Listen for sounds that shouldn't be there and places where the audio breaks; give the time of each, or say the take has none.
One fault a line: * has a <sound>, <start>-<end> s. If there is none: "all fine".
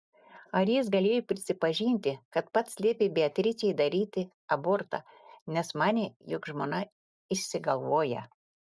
all fine